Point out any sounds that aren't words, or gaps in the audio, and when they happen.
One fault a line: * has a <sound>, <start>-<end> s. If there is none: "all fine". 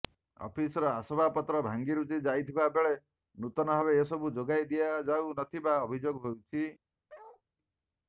* has a bark, 7.1-7.4 s